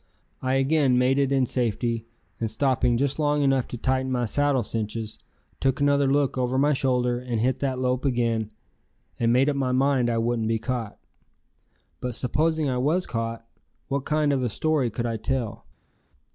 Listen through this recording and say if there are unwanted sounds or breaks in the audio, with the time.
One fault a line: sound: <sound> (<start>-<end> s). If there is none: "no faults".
no faults